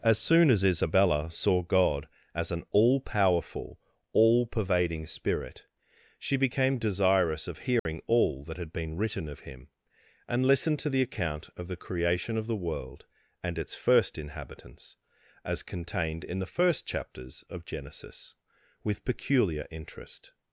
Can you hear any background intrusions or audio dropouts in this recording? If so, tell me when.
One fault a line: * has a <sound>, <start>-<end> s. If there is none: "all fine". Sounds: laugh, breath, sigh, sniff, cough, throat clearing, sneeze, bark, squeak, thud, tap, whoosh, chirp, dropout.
* has a dropout, 7.8-7.9 s